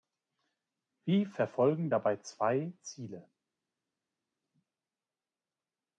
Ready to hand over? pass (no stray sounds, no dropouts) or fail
pass